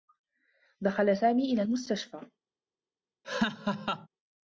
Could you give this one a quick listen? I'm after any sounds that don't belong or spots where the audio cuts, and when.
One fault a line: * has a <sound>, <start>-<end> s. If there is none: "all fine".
* has a laugh, 3.2-4.1 s